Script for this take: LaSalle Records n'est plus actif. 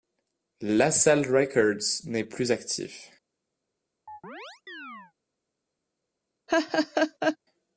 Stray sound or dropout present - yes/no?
yes